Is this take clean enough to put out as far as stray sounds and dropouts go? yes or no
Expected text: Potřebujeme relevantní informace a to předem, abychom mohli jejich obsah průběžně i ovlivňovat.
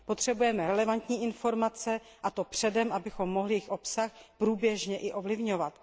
yes